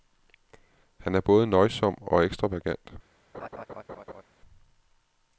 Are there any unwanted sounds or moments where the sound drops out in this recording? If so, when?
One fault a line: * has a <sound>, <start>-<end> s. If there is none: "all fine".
* has a laugh, 3.3-4.2 s